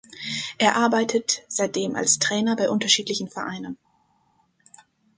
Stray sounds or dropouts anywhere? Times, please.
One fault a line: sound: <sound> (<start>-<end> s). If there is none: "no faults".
no faults